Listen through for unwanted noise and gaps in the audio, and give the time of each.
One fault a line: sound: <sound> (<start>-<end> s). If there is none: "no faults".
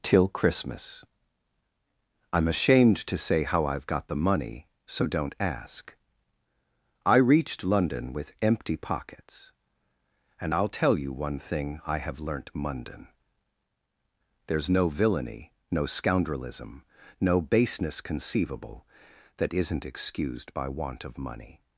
no faults